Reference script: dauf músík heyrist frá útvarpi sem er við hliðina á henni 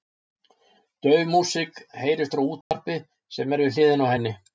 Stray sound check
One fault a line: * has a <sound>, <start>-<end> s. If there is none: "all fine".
* has a dropout, 2.6-2.7 s